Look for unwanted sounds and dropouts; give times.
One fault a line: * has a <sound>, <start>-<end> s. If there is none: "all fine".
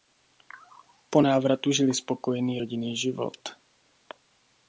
all fine